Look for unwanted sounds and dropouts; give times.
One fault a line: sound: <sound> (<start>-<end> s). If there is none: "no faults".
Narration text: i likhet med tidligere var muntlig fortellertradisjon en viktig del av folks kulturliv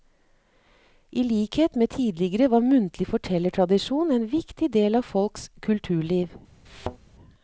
sound: thud (6.7-7.0 s)